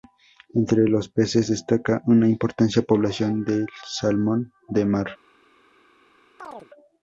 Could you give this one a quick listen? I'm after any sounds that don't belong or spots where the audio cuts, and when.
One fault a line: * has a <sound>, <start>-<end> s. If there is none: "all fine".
* has a chirp, 6.4-6.7 s